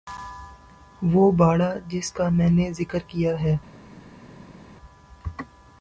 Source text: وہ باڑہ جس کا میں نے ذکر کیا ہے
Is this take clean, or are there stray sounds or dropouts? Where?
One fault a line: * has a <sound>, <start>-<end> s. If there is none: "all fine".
all fine